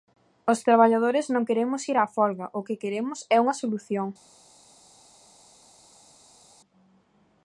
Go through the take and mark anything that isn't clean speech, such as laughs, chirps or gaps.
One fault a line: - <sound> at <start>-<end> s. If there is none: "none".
none